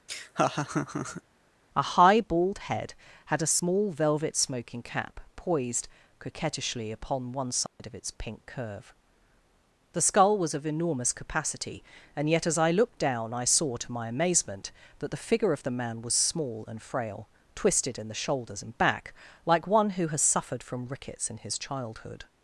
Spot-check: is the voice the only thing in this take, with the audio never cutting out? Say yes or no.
no